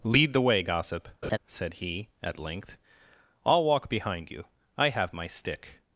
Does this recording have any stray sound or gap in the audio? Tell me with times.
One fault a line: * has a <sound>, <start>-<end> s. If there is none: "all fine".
* has a laugh, 1.2-1.4 s